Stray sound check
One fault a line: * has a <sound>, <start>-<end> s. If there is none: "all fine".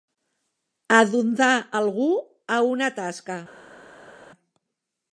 all fine